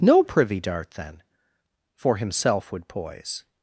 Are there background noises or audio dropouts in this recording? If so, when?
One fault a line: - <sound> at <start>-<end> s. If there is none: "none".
none